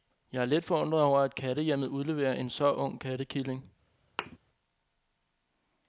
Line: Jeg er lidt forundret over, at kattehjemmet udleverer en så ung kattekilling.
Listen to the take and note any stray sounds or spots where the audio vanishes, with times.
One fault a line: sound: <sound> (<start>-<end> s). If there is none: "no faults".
sound: thud (4.2-4.4 s)